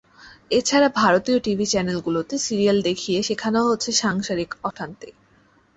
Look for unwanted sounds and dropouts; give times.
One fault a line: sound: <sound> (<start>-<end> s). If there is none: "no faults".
sound: dropout (4.7-4.8 s)